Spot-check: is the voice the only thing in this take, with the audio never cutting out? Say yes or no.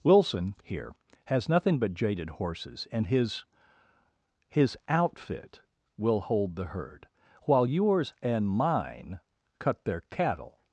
yes